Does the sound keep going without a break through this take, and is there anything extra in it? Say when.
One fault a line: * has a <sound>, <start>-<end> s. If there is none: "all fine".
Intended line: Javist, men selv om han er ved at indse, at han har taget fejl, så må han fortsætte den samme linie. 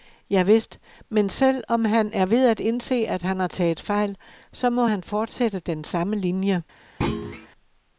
* has a thud, 7.0-7.5 s